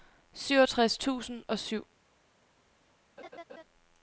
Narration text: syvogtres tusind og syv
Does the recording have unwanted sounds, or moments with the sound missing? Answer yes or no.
yes